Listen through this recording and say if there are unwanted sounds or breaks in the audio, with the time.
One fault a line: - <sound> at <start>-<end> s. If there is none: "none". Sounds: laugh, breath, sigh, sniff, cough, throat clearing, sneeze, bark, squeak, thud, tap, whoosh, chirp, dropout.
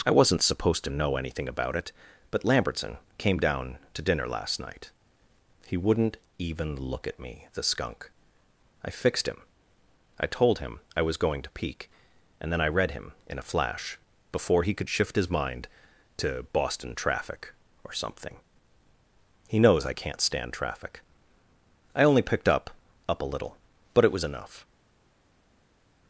none